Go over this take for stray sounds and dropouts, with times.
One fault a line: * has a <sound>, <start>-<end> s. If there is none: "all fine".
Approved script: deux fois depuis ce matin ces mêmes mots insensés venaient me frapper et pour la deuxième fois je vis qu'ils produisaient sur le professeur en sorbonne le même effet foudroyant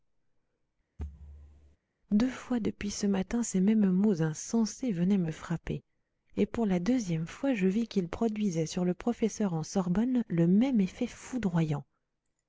* has a thud, 1.0-1.8 s